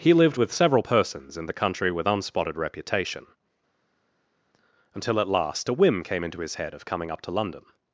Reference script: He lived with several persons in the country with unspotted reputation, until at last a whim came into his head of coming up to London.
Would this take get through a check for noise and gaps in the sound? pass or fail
pass